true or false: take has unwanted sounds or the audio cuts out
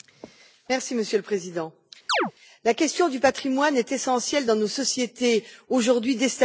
true